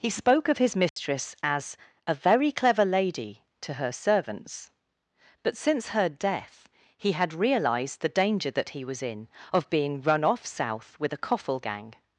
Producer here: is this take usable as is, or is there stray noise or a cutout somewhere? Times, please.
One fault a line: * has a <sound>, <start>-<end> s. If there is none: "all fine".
* has a dropout, 0.9-1.0 s